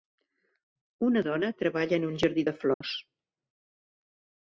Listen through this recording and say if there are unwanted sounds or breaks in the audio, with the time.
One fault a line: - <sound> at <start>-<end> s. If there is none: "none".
- dropout at 2.7-2.8 s